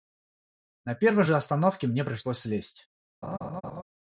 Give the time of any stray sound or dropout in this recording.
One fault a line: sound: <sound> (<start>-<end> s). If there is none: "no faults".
sound: laugh (3.2-3.8 s)